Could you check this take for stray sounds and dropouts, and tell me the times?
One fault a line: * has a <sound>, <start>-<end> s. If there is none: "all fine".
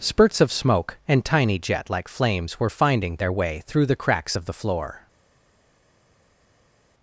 all fine